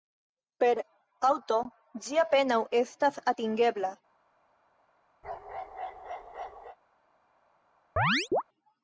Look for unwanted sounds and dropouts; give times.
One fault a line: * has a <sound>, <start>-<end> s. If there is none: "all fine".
* has a bark, 5.2-6.8 s
* has a chirp, 8.0-8.4 s